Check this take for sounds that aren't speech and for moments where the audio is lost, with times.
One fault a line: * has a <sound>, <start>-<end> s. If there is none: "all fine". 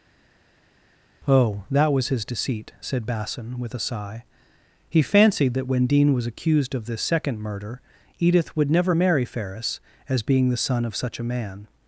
all fine